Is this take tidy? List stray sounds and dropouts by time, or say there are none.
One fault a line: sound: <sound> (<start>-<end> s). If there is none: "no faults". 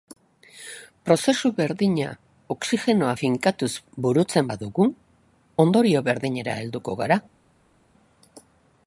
no faults